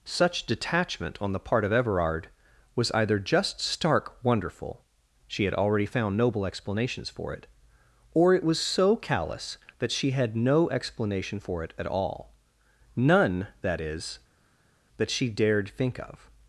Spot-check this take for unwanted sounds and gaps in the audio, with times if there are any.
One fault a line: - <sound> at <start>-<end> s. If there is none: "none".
none